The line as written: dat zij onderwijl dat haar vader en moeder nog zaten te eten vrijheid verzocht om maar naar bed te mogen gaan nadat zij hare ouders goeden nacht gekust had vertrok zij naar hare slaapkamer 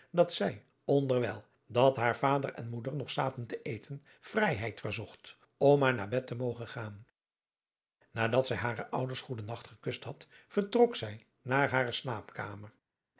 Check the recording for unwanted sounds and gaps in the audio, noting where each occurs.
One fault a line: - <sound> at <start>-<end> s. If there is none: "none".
none